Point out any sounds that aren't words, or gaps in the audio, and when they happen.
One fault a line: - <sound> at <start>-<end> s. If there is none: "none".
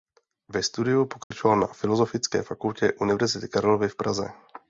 - dropout at 1.2-1.3 s